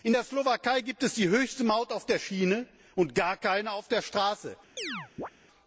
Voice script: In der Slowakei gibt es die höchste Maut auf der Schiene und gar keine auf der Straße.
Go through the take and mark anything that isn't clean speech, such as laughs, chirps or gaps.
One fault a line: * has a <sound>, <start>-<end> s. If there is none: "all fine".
* has a chirp, 4.8-5.3 s